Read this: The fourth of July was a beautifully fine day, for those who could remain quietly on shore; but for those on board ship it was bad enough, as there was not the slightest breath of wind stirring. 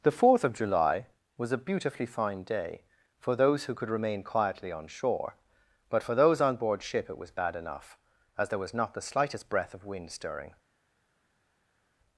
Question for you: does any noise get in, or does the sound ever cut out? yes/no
no